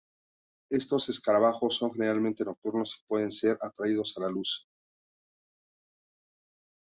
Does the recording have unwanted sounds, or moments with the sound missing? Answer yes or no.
no